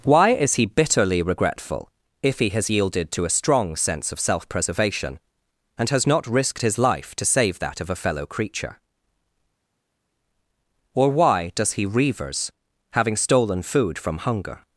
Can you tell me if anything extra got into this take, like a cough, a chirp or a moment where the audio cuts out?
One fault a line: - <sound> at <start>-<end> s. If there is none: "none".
none